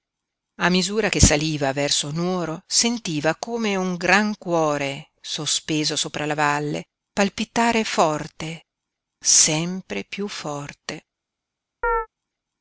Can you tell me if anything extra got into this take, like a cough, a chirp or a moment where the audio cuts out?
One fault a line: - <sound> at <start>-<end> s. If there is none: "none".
- chirp at 11.8-12.1 s